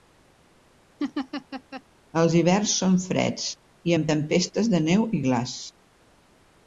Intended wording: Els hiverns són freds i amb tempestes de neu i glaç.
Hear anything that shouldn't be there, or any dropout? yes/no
yes